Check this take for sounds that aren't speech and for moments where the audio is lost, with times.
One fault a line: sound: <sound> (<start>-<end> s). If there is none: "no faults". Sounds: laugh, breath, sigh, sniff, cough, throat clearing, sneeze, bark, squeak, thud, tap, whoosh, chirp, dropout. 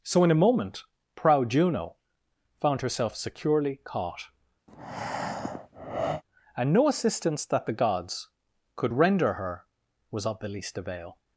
sound: breath (4.7-6.2 s)